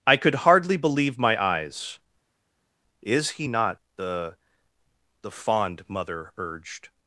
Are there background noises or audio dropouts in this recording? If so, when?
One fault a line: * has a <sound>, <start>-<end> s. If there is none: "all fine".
all fine